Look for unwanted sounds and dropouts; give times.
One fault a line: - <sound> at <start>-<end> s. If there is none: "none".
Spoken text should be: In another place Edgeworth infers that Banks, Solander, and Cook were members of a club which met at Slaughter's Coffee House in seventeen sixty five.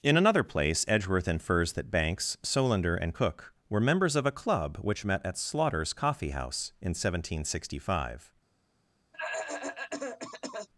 - cough at 9.1-10.7 s